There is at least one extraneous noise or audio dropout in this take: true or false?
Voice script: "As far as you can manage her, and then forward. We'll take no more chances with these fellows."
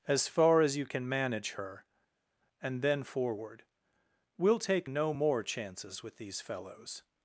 false